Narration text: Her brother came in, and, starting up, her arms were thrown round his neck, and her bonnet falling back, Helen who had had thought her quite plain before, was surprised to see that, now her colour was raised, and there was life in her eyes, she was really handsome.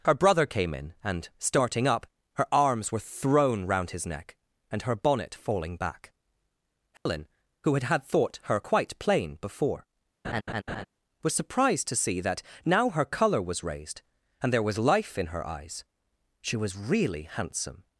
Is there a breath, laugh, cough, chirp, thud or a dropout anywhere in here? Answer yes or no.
yes